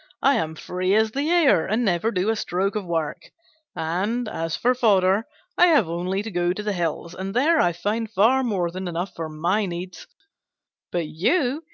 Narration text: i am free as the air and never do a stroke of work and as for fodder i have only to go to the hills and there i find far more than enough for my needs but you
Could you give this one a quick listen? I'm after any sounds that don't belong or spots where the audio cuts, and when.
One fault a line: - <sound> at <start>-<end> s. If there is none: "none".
none